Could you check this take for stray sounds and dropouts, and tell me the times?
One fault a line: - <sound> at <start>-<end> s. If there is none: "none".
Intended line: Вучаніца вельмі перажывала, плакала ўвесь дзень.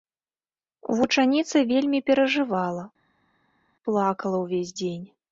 none